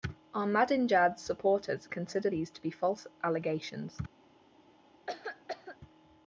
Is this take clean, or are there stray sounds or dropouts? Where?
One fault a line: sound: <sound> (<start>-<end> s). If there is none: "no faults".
sound: cough (5.1-5.8 s)